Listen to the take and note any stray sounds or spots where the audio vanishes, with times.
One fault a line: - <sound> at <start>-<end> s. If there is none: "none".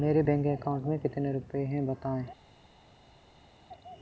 none